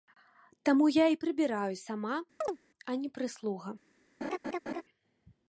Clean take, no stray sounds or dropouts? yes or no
no